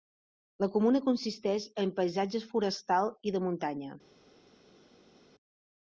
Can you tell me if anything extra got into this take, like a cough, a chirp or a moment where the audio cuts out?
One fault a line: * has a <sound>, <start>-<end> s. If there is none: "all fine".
all fine